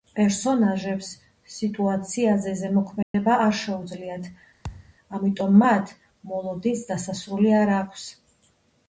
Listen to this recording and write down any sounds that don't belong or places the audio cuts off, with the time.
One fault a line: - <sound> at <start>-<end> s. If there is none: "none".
- dropout at 3.0-3.1 s
- thud at 4.6-4.9 s